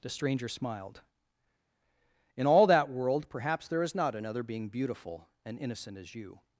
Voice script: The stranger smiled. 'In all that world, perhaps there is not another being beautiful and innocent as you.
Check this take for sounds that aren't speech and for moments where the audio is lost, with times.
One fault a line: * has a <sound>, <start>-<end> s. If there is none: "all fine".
all fine